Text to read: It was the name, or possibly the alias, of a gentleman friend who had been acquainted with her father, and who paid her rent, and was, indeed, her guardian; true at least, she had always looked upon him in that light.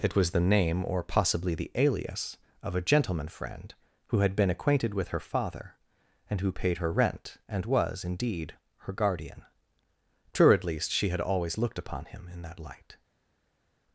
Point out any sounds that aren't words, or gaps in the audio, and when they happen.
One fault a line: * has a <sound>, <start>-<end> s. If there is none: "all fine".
all fine